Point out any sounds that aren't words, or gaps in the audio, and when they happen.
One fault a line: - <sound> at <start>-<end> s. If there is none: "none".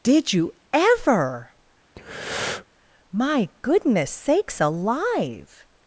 - breath at 2.0-2.7 s